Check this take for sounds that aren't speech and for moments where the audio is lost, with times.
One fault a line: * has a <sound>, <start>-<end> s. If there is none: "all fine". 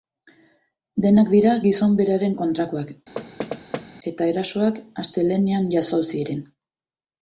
* has a thud, 3.2-3.9 s